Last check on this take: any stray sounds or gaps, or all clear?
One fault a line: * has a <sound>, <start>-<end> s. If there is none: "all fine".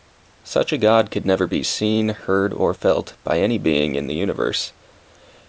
all fine